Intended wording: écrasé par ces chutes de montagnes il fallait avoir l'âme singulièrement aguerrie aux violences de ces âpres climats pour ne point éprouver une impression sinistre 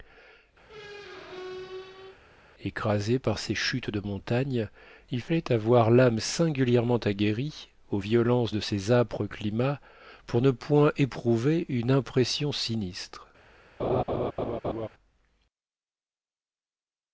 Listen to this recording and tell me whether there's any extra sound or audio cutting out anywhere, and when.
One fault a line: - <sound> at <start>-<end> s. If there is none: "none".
- squeak at 0.6-2.2 s
- laugh at 13.8-14.9 s